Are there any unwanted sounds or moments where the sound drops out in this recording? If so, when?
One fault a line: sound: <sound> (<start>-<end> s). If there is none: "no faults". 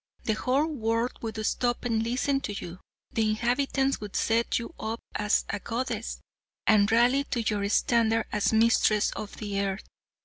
no faults